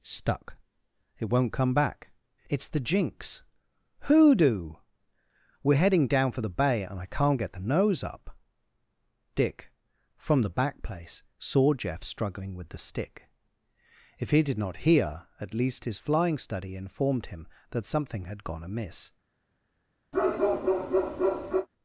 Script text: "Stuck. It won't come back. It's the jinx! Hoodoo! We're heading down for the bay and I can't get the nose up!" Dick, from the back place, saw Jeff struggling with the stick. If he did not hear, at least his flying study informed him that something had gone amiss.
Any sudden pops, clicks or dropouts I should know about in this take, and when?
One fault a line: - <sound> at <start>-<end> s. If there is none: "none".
- bark at 20.1-21.7 s